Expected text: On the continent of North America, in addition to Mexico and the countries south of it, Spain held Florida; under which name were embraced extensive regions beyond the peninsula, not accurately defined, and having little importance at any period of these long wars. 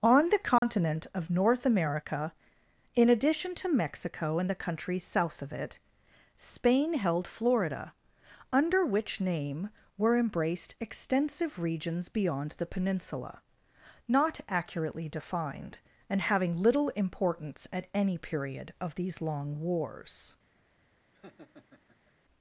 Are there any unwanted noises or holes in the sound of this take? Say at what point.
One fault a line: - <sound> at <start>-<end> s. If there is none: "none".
- dropout at 0.6-0.6 s
- laugh at 21.1-22.1 s